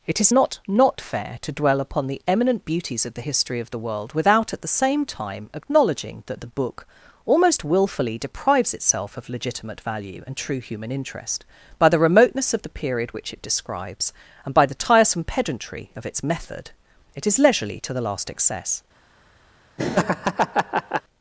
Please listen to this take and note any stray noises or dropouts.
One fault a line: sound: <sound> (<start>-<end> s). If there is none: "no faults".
sound: laugh (19.8-21.0 s)